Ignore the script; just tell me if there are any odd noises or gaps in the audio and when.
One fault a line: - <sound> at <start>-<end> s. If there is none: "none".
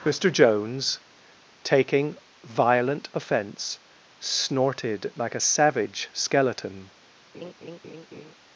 - laugh at 7.3-8.3 s